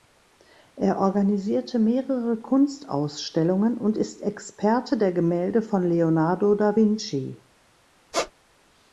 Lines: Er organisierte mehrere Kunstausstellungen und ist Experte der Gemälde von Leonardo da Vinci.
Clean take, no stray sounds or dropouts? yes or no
no